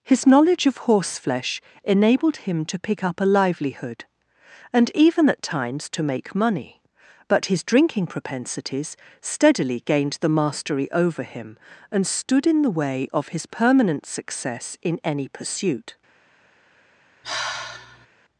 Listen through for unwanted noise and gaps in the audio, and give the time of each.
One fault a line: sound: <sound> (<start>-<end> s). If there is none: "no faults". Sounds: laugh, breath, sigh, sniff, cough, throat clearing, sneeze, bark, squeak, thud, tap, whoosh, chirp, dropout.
sound: sigh (17.2-18.1 s)